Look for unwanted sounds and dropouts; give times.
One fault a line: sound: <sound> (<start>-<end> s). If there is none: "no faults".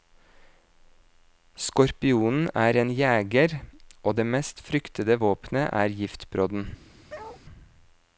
sound: bark (7.1-7.4 s)